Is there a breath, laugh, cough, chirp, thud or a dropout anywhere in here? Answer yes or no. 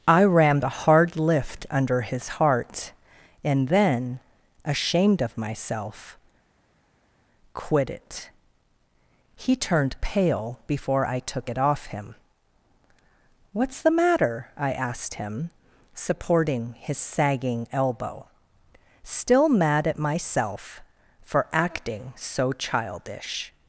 no